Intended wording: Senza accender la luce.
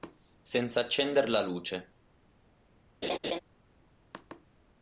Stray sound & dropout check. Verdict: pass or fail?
fail